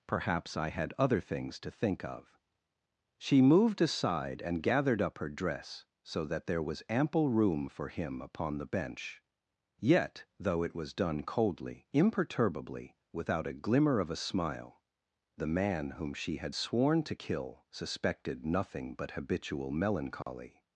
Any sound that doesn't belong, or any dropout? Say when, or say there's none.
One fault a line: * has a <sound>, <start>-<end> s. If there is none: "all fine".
* has a dropout, 20.2-20.3 s